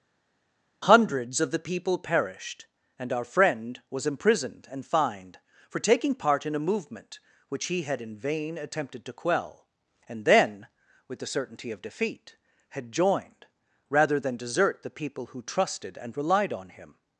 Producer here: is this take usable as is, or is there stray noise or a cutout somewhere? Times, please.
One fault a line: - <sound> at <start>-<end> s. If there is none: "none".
none